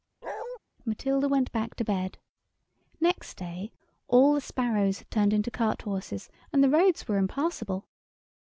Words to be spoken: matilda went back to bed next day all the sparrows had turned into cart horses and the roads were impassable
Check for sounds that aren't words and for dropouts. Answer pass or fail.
fail